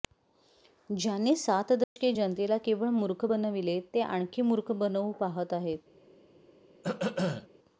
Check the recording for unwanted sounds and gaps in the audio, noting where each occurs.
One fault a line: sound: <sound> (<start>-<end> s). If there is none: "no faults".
sound: dropout (1.8-2.0 s)
sound: throat clearing (6.8-7.5 s)